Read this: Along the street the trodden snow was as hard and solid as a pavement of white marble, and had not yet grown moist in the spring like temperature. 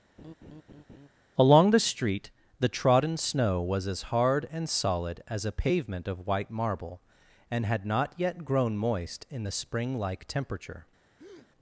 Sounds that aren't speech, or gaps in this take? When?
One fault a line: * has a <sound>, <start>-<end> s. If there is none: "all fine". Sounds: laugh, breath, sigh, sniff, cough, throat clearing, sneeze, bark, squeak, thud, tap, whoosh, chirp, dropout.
* has a laugh, 0.2-1.1 s
* has a breath, 11.2-11.5 s